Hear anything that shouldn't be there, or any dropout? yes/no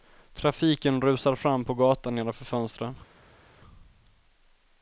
no